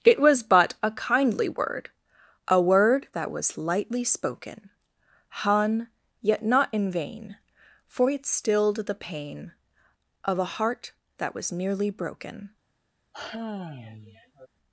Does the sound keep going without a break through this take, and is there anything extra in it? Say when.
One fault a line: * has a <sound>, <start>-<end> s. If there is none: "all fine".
* has a sigh, 13.1-14.5 s